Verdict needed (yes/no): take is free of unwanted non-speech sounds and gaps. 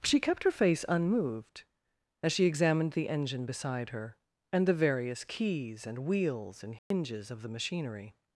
no